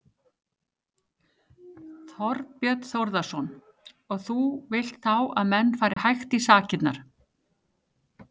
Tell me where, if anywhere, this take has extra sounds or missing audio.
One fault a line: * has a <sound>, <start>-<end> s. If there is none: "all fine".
* has a dropout, 5.9-6.0 s